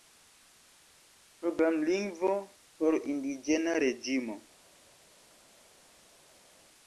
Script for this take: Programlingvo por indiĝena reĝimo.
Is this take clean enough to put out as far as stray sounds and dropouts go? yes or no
yes